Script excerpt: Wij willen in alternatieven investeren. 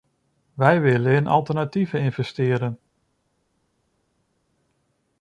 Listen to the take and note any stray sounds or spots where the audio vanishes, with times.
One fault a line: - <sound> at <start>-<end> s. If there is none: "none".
none